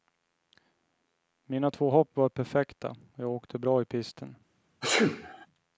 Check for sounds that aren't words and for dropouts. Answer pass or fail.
fail